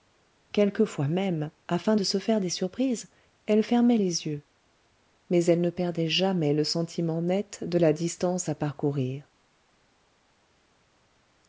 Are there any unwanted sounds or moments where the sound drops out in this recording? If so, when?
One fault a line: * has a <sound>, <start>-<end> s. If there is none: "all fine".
all fine